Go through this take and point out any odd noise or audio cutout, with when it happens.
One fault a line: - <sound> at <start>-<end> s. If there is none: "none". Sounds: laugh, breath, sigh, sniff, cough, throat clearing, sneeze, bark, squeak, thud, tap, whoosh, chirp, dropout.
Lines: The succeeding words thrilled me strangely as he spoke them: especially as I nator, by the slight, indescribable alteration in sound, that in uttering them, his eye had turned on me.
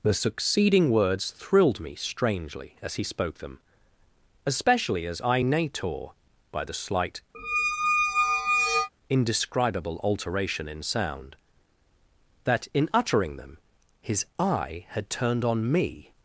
- squeak at 7.3-8.9 s